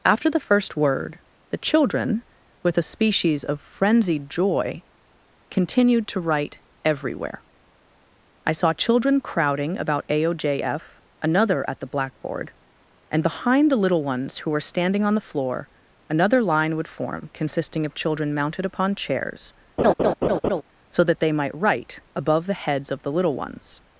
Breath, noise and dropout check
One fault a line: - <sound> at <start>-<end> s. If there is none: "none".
- laugh at 19.8-20.6 s